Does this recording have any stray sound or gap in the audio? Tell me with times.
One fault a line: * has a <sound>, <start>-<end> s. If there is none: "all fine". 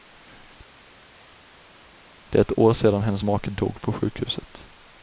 all fine